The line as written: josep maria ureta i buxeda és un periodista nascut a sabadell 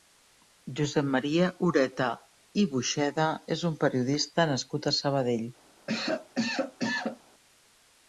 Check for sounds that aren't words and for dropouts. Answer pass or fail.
fail